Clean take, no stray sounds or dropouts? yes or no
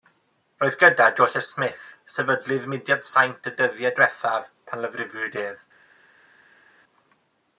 yes